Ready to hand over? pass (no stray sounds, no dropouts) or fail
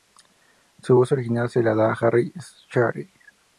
pass